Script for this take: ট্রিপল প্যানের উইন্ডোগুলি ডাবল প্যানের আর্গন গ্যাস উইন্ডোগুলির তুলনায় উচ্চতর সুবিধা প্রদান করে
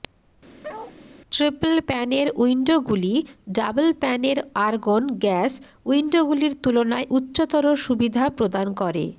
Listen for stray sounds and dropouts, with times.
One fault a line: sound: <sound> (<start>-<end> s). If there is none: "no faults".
sound: bark (0.6-1.0 s)